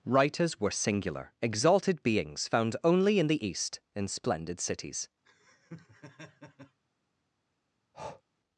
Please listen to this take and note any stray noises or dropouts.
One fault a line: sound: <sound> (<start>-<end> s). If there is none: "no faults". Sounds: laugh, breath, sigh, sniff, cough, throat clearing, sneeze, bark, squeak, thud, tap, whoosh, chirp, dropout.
sound: laugh (5.2-6.8 s)
sound: breath (7.9-8.2 s)